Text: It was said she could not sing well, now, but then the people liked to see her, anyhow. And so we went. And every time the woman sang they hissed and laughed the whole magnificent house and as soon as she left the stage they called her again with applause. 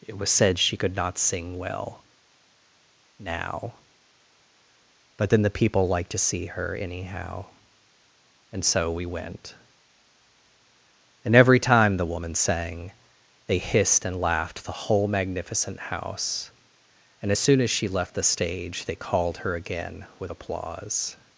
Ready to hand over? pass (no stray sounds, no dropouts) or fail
pass